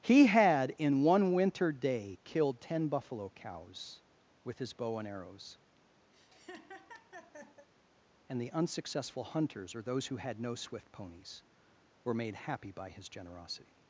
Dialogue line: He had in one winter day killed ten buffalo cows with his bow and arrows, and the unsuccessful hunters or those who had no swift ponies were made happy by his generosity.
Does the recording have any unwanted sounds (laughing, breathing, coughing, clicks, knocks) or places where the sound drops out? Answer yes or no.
yes